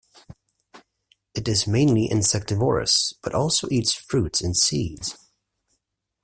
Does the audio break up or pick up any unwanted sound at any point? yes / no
no